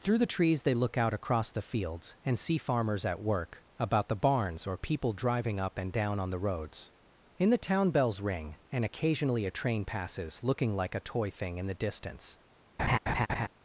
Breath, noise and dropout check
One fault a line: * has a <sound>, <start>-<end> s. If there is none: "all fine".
* has a laugh, 12.8-13.5 s